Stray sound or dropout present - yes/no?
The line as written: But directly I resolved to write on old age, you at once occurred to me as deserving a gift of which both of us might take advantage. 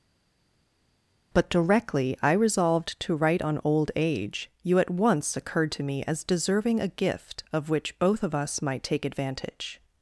no